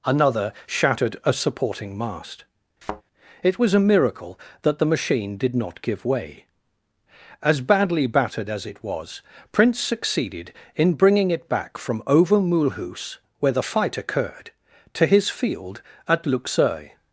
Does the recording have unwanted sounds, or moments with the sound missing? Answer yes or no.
yes